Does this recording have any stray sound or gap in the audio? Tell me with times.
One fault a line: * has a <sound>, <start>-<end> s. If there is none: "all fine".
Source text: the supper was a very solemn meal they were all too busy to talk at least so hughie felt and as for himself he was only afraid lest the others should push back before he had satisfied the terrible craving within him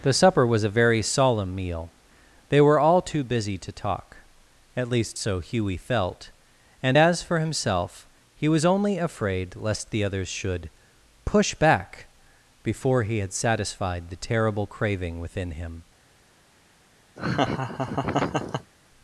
* has a laugh, 17.2-18.7 s